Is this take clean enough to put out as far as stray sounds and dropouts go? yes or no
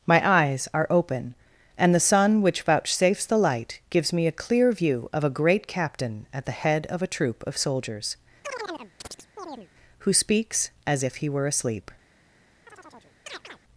no